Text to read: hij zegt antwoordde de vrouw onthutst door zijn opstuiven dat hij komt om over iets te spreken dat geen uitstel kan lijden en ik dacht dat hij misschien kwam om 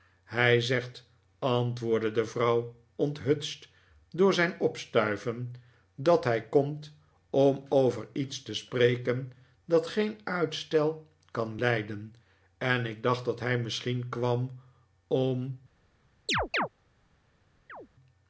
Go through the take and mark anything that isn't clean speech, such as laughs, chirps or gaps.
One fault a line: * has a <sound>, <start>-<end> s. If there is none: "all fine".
* has a chirp, 16.3-16.7 s
* has a chirp, 17.7-17.9 s